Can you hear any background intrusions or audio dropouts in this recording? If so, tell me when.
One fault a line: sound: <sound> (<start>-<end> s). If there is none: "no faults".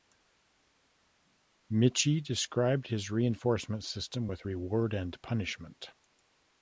no faults